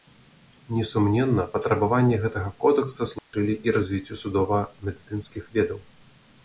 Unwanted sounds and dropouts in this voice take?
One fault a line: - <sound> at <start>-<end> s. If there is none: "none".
- dropout at 3.2-3.3 s